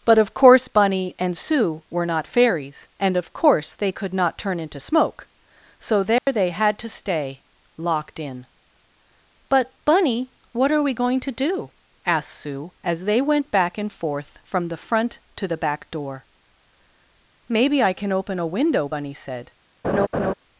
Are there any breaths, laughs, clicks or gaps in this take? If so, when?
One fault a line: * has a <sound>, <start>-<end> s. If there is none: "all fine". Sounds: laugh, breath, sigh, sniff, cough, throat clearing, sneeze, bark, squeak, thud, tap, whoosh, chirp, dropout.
* has a dropout, 6.2-6.3 s
* has a laugh, 19.8-20.3 s